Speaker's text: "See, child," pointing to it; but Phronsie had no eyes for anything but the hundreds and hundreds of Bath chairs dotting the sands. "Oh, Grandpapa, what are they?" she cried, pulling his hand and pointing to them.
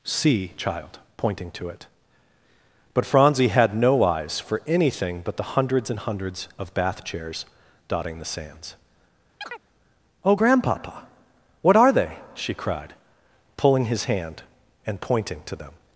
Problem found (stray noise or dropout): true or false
true